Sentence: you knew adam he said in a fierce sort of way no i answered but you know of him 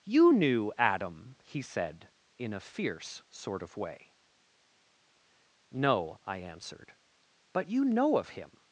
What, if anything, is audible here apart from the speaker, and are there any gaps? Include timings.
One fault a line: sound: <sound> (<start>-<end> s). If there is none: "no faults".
no faults